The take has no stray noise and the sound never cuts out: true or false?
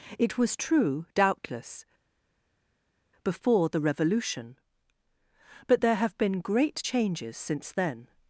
true